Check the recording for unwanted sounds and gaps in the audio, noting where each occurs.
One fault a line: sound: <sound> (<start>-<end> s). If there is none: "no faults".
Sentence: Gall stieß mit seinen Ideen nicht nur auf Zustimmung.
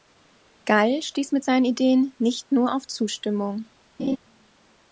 sound: laugh (4.0-4.2 s)